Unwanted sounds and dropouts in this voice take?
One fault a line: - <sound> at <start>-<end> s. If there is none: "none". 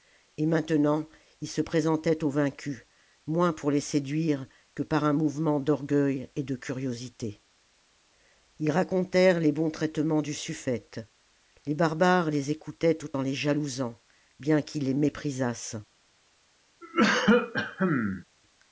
- cough at 16.8-18.2 s